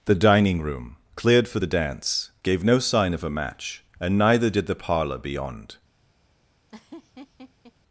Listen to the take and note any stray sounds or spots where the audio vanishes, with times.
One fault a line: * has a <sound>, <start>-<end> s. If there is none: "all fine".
* has a laugh, 6.7-7.7 s